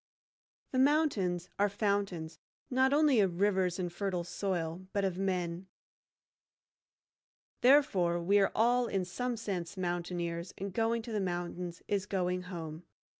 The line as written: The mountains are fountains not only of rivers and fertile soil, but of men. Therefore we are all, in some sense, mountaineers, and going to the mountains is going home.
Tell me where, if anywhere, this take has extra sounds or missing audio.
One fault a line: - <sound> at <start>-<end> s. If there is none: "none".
none